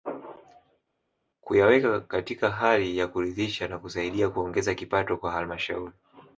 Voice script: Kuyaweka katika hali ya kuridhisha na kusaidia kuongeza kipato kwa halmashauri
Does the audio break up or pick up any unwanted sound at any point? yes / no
no